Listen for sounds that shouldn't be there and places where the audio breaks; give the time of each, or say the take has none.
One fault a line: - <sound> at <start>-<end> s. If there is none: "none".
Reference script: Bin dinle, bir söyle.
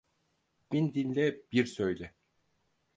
none